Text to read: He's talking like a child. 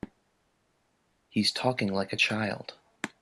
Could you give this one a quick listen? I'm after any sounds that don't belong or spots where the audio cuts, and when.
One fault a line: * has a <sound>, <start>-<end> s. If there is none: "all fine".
all fine